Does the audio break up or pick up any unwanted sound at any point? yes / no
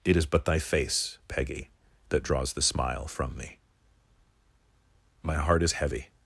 no